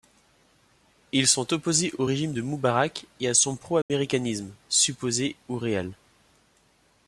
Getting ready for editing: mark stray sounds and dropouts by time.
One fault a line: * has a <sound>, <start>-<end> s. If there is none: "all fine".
* has a dropout, 3.8-3.9 s